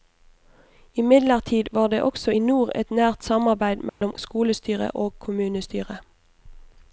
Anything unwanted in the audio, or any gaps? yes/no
yes